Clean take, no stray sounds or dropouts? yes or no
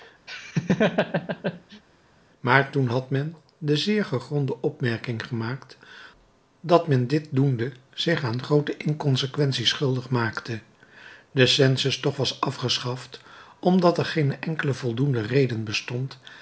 no